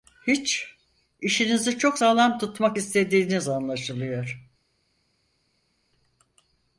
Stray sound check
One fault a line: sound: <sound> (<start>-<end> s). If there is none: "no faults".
no faults